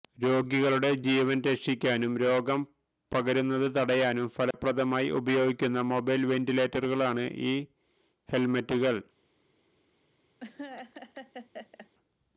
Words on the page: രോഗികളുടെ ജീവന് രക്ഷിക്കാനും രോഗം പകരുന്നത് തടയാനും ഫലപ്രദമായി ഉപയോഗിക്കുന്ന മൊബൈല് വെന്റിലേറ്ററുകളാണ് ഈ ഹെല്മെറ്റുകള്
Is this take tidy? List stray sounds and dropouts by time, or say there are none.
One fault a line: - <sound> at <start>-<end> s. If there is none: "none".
- dropout at 4.5-4.5 s
- laugh at 10.4-11.9 s